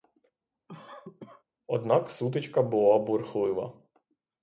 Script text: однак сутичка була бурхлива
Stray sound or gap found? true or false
true